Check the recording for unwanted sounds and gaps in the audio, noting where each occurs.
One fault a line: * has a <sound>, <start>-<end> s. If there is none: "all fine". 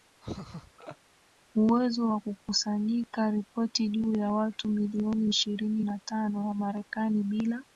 * has a laugh, 0.2-1.0 s